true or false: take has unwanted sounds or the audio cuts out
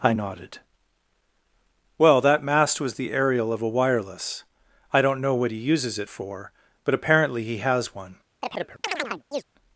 true